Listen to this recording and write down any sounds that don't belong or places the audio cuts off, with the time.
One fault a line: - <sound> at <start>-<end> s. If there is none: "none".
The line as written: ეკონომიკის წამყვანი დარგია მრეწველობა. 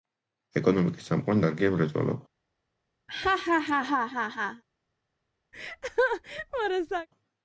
- laugh at 3.1-4.6 s
- laugh at 5.5-7.1 s